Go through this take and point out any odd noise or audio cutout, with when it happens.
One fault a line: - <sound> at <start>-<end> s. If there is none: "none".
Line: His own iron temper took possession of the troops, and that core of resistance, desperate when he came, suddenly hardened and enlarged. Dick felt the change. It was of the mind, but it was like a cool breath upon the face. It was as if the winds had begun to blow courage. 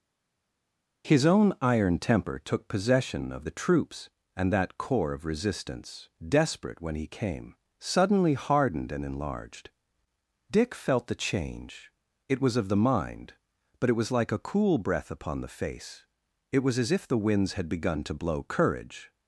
none